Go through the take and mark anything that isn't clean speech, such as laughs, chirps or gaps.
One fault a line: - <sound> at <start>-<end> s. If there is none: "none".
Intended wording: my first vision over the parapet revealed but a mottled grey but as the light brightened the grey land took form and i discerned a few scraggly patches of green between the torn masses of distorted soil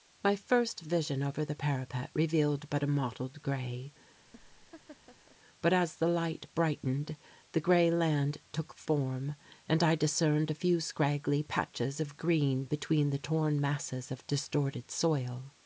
- laugh at 4.3-5.4 s